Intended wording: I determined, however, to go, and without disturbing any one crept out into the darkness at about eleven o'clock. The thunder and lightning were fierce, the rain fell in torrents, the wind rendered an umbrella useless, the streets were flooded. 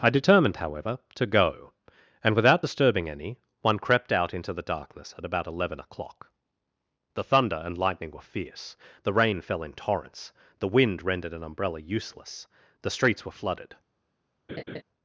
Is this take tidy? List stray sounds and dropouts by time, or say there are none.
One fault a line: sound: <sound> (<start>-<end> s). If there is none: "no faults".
sound: laugh (14.5-14.8 s)